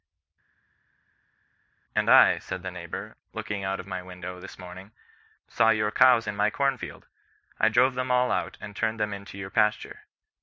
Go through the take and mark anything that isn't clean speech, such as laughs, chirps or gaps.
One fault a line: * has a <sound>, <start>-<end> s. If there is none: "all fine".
all fine